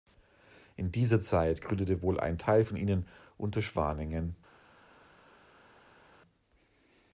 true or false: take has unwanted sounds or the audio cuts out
false